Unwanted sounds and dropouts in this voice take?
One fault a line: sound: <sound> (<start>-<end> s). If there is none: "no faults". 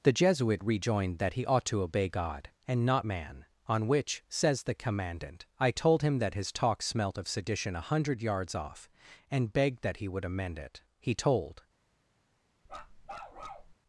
sound: bark (12.7-13.7 s)